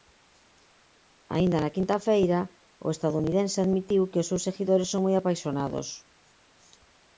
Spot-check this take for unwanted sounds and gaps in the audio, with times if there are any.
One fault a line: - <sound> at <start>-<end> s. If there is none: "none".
none